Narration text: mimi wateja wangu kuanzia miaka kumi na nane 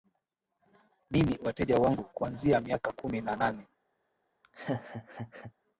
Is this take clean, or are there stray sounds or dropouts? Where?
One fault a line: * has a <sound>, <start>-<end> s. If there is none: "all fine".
* has a laugh, 4.4-5.5 s